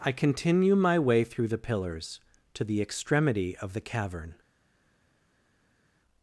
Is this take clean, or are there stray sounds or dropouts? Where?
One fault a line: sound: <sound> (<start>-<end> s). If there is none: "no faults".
no faults